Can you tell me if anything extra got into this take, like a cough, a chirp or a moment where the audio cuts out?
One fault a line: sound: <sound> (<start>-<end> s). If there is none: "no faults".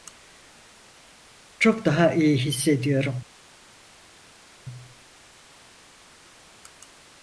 no faults